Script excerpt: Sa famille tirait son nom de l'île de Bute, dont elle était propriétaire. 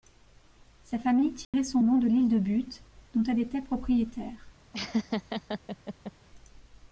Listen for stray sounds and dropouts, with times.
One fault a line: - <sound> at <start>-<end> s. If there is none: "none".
- dropout at 1.4-1.5 s
- laugh at 4.7-6.1 s